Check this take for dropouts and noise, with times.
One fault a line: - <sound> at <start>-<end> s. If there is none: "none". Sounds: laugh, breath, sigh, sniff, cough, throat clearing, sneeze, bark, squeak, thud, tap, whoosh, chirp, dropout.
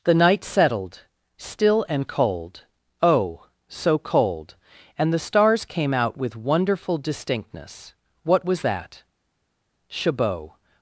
none